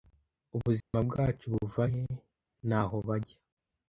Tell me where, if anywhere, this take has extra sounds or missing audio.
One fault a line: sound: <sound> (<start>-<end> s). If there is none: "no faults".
sound: dropout (0.8-0.9 s)